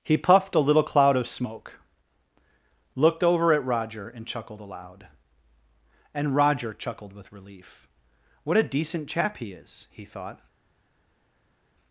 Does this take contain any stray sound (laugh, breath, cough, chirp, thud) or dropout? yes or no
no